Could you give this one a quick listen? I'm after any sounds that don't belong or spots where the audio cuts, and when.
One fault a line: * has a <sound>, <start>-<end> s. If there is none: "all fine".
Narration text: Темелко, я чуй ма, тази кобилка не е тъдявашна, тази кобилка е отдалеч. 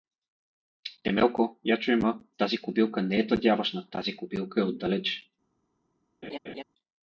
* has a laugh, 6.2-6.6 s